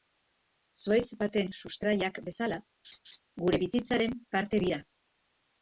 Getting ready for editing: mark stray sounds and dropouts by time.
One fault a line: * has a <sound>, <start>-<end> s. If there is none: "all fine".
* has a laugh, 2.8-3.2 s